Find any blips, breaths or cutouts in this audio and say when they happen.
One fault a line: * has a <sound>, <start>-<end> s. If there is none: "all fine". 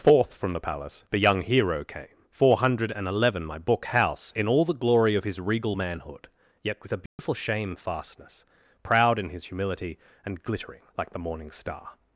* has a dropout, 7.1-7.2 s